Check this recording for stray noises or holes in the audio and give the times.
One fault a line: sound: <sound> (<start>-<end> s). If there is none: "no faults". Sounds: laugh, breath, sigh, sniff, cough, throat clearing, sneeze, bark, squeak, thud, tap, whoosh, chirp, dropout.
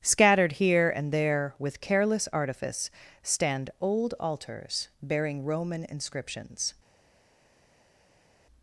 no faults